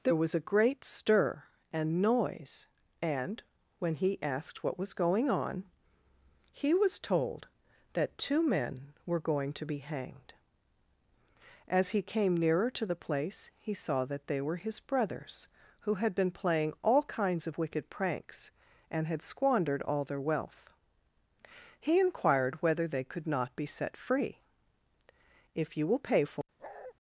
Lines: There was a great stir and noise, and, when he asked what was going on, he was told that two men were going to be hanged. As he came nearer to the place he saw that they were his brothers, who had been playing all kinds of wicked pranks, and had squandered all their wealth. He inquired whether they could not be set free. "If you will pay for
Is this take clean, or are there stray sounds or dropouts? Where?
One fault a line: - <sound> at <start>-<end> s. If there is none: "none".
- bark at 26.6-26.9 s